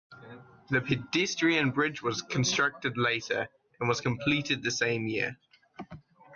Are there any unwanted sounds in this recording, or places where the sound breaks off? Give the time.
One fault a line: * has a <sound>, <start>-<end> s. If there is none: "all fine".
all fine